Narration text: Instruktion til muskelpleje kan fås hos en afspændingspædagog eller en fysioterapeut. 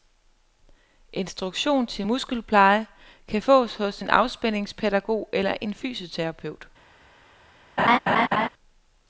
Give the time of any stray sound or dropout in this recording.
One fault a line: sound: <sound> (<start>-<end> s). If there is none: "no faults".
sound: laugh (7.8-8.5 s)